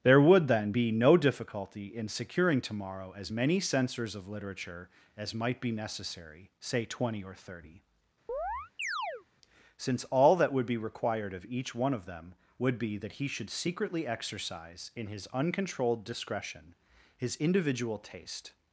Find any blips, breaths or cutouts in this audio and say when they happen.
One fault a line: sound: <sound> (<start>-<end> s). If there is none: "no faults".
sound: chirp (8.3-9.3 s)